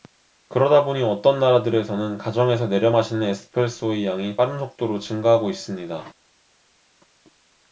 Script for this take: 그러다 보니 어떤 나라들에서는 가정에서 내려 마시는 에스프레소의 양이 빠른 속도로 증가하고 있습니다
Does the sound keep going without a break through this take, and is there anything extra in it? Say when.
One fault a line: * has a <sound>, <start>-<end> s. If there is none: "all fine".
all fine